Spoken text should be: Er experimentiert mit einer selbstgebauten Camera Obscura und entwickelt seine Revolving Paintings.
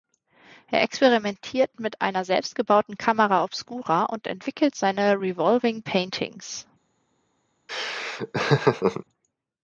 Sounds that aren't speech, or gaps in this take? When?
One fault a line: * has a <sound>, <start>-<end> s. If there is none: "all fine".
* has a laugh, 7.7-9.0 s